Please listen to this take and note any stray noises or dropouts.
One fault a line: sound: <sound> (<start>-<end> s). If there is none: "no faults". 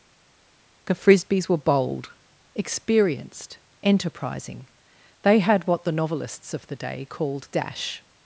no faults